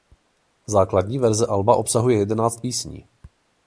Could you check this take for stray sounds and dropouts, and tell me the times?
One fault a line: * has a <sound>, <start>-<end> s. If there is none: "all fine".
all fine